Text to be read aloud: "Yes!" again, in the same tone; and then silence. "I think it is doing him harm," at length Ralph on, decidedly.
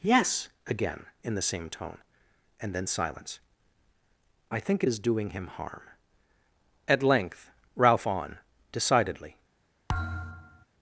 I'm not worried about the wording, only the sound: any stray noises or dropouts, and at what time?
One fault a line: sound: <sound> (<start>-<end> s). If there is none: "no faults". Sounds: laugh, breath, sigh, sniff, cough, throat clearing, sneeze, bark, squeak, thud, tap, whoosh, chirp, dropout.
sound: thud (9.9-10.7 s)